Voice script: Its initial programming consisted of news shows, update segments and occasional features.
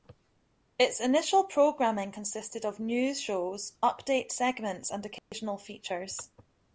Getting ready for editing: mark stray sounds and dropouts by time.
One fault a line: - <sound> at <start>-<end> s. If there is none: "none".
- dropout at 5.2-5.3 s